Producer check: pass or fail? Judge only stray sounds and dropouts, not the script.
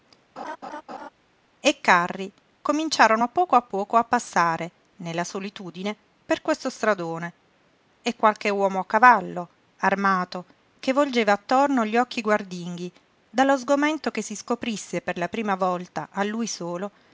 fail